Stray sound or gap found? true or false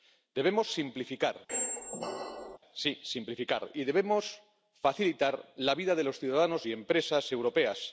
true